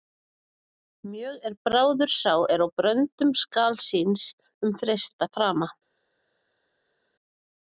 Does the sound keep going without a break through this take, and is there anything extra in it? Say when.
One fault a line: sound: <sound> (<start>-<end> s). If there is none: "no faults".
no faults